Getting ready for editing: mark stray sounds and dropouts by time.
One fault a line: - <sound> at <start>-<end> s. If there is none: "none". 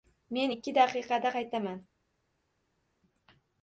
none